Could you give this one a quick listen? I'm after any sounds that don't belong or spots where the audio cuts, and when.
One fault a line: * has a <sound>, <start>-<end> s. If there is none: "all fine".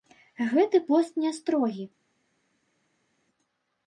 all fine